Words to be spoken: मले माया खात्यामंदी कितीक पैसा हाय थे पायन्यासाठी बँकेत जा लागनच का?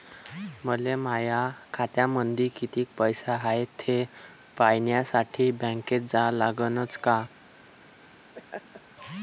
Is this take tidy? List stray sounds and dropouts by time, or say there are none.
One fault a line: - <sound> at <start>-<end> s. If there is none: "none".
- laugh at 8.3-8.8 s